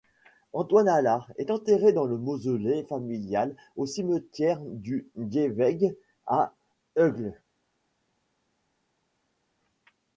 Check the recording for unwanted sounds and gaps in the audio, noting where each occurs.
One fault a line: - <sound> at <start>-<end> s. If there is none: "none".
none